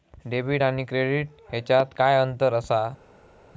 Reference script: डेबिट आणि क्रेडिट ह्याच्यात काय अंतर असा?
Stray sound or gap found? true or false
false